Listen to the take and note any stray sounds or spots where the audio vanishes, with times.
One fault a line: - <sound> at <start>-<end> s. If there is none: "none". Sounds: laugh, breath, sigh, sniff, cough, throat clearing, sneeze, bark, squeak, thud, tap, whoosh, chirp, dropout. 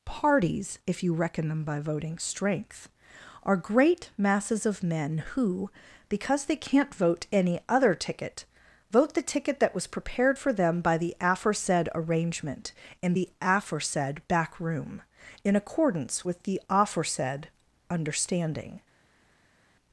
none